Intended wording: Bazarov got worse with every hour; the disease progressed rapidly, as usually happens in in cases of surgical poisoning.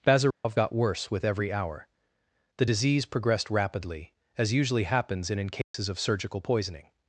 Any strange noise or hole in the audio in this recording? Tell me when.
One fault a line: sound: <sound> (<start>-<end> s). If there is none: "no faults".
sound: dropout (0.3-0.4 s)
sound: dropout (5.6-5.7 s)